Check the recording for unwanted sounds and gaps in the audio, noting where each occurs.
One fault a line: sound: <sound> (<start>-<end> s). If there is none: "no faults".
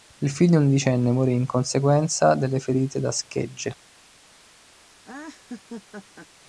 sound: laugh (5.0-6.3 s)